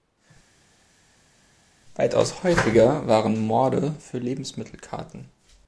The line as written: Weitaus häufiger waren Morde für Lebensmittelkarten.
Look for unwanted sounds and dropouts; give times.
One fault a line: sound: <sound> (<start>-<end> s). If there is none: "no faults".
no faults